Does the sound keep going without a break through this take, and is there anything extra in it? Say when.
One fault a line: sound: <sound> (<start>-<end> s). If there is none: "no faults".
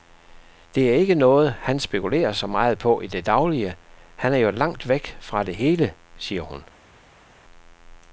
no faults